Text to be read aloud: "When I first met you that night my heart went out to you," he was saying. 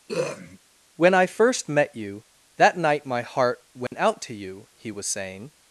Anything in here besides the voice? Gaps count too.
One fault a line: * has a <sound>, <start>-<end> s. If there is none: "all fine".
* has a throat clearing, 0.1-0.6 s
* has a dropout, 3.9-3.9 s